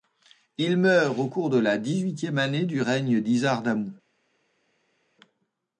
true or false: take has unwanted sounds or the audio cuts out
false